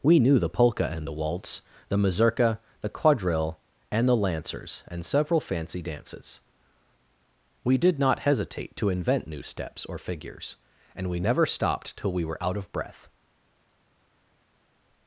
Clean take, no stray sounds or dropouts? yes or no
yes